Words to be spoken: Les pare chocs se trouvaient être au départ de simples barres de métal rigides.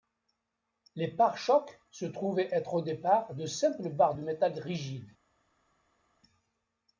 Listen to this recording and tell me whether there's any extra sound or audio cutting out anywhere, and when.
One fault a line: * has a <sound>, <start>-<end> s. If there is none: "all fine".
all fine